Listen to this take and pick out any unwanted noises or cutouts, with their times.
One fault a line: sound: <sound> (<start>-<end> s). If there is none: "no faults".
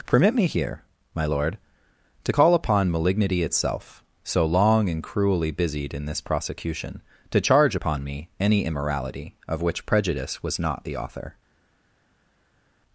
no faults